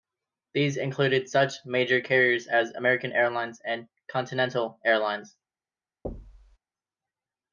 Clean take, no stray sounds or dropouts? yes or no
no